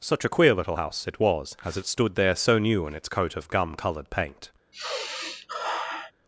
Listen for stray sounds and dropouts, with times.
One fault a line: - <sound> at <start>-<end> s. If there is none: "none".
- sigh at 4.7-6.1 s